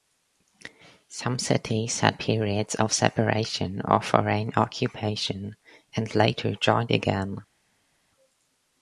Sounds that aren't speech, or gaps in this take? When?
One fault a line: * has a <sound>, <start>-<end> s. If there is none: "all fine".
all fine